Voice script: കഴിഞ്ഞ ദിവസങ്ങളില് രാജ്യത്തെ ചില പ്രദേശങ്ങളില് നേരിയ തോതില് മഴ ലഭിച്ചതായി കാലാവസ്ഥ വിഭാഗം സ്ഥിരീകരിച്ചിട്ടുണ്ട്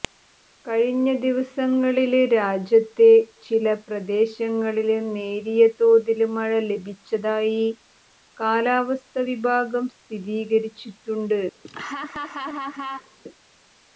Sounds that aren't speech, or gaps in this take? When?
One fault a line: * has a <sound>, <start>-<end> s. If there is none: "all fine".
* has a laugh, 11.6-13.2 s